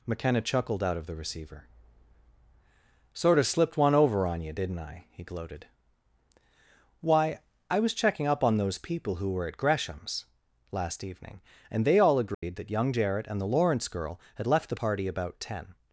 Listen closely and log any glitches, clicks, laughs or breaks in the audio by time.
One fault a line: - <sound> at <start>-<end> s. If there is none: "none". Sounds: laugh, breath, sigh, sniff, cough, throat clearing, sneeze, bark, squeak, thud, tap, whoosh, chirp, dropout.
- dropout at 12.3-12.4 s